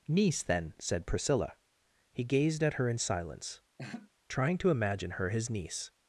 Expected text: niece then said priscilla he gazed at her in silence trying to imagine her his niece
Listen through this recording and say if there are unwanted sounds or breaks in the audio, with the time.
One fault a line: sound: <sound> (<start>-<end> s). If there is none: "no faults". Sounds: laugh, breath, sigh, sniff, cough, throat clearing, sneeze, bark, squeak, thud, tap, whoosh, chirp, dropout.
sound: laugh (3.8-4.1 s)